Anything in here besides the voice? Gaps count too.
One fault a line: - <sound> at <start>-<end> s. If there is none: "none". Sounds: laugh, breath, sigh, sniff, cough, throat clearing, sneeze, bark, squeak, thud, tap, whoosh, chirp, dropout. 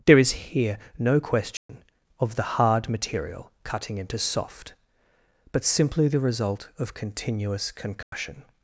- dropout at 1.6-1.7 s
- dropout at 8.0-8.1 s